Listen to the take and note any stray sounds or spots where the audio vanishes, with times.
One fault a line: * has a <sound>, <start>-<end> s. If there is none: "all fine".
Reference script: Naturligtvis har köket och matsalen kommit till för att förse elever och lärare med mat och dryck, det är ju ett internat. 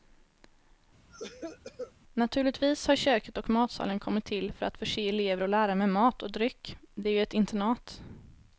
* has a cough, 1.1-1.9 s